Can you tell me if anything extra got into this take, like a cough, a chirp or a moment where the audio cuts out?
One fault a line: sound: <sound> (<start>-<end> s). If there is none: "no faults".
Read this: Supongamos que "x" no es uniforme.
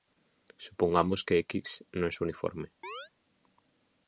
sound: chirp (2.8-3.1 s)